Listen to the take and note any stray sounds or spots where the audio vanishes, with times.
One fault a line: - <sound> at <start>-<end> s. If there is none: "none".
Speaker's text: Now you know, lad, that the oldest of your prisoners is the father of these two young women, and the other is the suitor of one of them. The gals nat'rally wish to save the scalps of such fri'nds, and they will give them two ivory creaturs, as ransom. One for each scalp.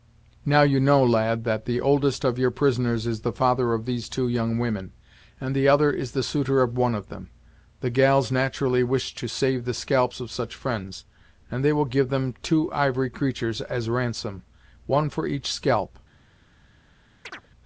- chirp at 17.2-17.5 s